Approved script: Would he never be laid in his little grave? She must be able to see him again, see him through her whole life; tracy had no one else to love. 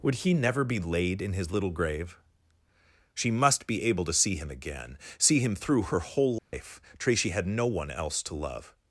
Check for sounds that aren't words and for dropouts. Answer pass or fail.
fail